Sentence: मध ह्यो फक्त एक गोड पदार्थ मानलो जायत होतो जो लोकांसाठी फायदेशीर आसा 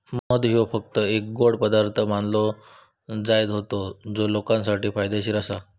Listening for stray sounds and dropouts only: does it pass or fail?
fail